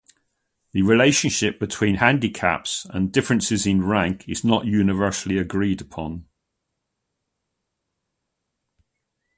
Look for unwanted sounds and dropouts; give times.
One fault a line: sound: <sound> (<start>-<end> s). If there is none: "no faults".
no faults